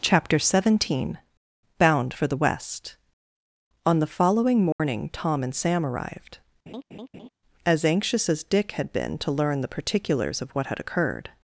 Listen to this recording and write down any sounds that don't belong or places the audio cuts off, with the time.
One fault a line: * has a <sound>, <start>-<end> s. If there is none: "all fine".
* has a dropout, 4.7-4.8 s
* has a laugh, 6.7-7.3 s